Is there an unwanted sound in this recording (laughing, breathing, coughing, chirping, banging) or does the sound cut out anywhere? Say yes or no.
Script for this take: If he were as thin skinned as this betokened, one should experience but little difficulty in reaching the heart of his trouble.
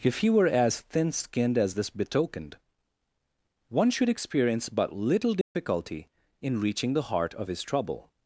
yes